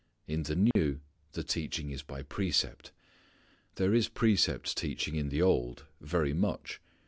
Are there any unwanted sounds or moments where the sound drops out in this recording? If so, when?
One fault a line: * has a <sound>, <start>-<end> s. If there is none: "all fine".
* has a dropout, 0.7-0.8 s